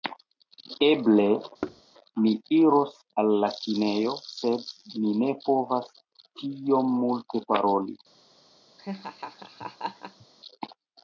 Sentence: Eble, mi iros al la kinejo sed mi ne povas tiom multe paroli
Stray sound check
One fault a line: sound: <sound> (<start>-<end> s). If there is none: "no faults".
sound: thud (1.6-1.8 s)
sound: laugh (8.8-10.3 s)